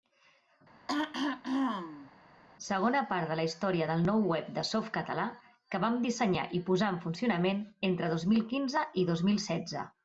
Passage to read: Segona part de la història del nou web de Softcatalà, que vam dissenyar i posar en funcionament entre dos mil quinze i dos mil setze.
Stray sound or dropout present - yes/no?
yes